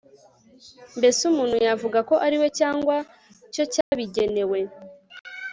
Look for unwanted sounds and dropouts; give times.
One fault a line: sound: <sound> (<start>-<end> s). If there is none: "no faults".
sound: dropout (3.8-3.9 s)